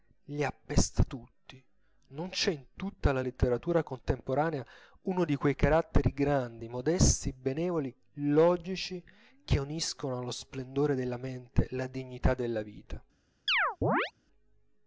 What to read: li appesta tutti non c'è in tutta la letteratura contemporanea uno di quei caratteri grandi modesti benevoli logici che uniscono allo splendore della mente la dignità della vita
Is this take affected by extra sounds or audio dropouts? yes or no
yes